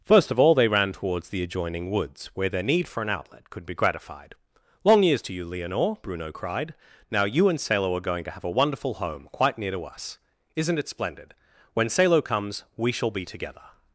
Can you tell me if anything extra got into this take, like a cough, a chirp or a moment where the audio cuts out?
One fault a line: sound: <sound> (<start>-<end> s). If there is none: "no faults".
no faults